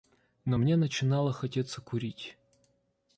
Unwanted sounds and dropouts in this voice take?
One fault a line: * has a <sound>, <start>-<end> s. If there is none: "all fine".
all fine